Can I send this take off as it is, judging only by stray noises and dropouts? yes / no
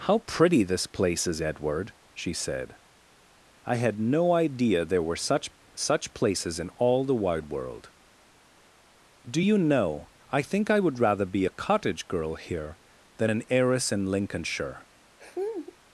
no